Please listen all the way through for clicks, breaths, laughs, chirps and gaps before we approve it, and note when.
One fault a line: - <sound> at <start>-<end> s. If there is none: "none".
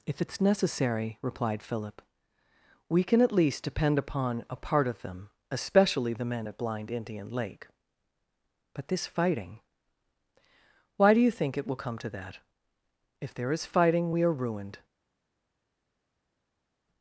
none